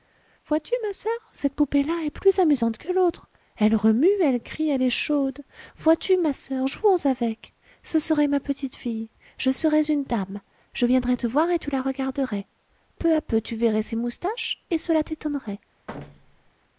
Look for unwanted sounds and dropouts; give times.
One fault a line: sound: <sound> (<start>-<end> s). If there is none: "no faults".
sound: thud (15.9-16.5 s)